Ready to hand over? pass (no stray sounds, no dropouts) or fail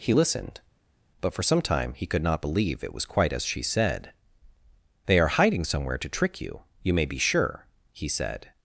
pass